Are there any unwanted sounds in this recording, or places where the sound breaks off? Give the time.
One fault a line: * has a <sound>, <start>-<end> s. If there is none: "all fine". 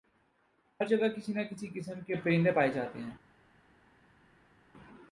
all fine